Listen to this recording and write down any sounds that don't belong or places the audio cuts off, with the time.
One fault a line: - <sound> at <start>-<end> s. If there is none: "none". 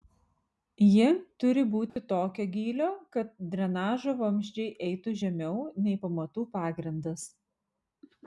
- dropout at 1.9-2.0 s